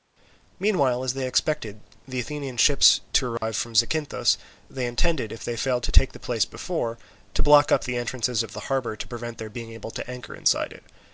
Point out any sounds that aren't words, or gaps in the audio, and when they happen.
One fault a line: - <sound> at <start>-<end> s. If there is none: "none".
- dropout at 3.4-3.4 s